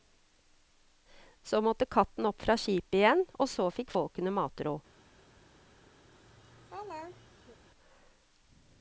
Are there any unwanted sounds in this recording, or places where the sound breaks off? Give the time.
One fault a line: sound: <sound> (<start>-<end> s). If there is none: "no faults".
sound: laugh (6.0-7.6 s)